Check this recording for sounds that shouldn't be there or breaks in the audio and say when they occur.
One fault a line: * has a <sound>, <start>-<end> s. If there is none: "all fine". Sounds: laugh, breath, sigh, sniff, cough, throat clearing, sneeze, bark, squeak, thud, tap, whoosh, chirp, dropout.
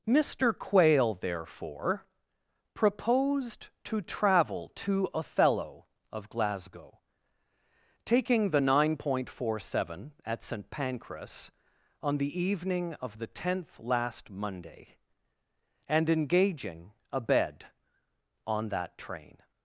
all fine